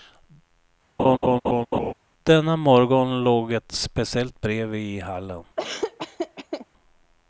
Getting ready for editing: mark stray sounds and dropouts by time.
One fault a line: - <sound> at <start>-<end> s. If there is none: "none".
- laugh at 1.0-1.9 s
- laugh at 5.6-6.7 s